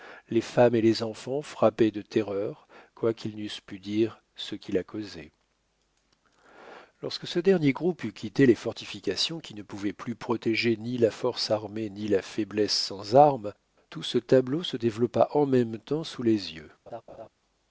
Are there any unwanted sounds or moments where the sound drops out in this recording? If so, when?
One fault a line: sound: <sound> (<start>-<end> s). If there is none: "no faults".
sound: laugh (16.9-17.3 s)